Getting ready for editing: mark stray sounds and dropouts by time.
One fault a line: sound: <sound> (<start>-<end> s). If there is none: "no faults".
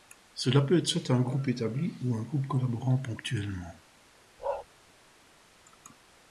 sound: bark (4.4-4.7 s)